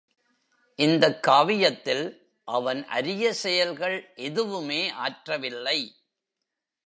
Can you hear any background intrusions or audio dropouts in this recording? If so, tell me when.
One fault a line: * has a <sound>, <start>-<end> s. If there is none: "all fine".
all fine